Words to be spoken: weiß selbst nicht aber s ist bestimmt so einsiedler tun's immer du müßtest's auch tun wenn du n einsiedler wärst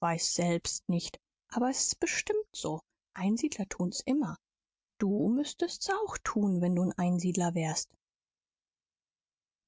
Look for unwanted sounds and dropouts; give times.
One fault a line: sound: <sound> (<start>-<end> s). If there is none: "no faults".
no faults